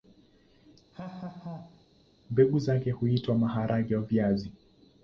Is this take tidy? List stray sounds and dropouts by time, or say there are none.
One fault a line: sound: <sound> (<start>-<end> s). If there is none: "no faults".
sound: laugh (0.9-1.9 s)